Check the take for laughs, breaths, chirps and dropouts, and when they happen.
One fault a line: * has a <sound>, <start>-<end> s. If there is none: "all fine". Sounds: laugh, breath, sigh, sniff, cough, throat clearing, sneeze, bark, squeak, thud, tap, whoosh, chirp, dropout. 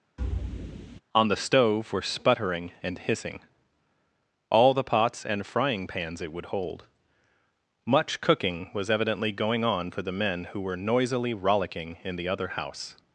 * has a thud, 0.2-1.0 s